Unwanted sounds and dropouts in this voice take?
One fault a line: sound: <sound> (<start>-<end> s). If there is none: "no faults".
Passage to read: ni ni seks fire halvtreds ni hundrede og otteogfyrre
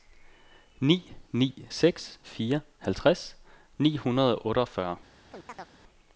sound: chirp (5.3-5.7 s)